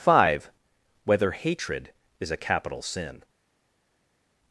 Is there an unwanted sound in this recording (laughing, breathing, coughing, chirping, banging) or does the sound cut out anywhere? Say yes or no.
no